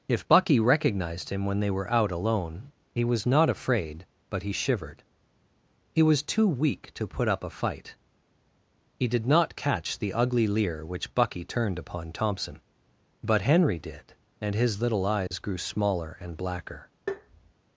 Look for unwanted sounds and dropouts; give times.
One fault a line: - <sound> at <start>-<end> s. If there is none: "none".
- dropout at 15.3-15.3 s
- tap at 17.1-17.5 s